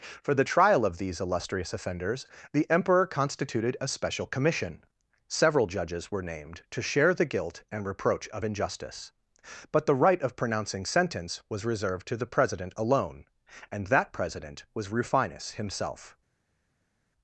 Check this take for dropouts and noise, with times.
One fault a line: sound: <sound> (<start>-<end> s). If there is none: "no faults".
no faults